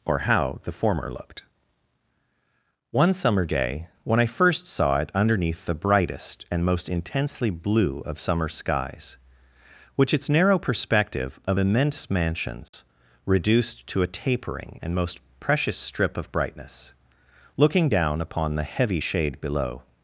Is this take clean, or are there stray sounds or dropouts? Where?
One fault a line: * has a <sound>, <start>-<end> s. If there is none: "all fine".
* has a dropout, 12.7-12.7 s